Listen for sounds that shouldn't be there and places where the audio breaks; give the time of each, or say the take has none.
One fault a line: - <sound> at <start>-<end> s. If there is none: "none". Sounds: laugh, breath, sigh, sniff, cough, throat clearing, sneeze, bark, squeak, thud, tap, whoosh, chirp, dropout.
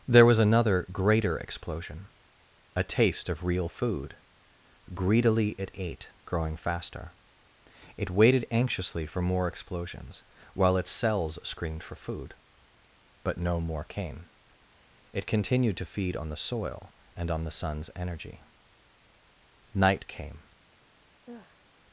- sigh at 21.2-21.7 s